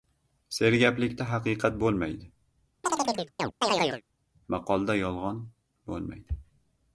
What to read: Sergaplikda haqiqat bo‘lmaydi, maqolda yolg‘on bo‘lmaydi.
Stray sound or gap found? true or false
true